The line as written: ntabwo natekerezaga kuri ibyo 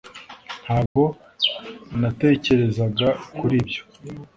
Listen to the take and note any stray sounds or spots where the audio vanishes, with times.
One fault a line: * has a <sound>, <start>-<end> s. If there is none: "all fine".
* has a dropout, 0.9-1.0 s